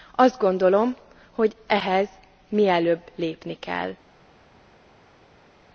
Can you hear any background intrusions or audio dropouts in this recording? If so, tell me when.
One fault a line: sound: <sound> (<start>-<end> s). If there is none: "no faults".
no faults